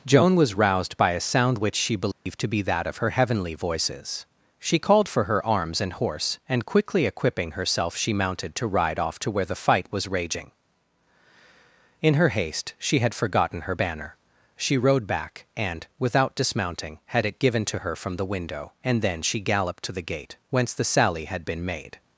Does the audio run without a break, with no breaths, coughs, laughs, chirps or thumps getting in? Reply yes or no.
no